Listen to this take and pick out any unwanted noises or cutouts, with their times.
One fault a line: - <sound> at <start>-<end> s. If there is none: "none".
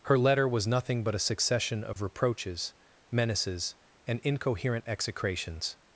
- dropout at 1.9-2.0 s